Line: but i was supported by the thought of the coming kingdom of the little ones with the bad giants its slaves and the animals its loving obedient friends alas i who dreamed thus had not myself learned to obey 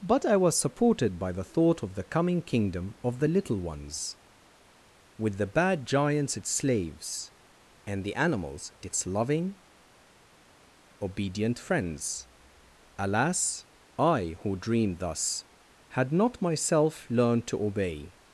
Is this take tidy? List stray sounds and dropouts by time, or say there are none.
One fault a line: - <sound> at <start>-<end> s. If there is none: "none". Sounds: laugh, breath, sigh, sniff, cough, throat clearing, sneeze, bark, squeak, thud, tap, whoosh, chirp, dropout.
none